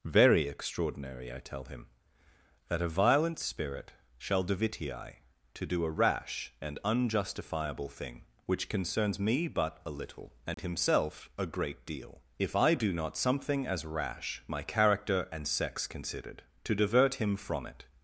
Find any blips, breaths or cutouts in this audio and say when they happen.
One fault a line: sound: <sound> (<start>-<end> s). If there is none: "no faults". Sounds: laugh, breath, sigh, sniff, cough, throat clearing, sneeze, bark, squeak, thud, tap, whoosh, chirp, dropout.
sound: dropout (10.5-10.6 s)